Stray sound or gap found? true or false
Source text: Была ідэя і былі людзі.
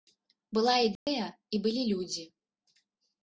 true